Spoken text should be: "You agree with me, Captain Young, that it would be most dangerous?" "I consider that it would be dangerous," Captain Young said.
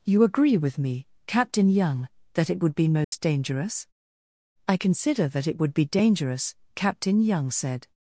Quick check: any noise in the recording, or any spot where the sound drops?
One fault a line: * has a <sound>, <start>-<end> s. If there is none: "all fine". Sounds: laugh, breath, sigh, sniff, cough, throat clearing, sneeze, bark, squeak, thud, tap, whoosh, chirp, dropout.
* has a dropout, 3.0-3.1 s